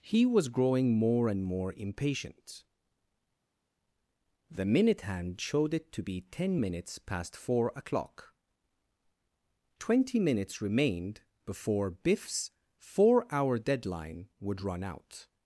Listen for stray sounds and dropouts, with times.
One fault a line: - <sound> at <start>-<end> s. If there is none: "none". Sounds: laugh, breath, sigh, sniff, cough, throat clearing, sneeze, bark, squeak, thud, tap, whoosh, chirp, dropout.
none